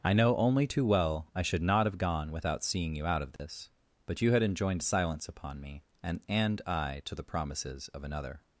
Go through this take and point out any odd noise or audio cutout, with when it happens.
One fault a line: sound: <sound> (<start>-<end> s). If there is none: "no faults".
sound: dropout (3.4-3.4 s)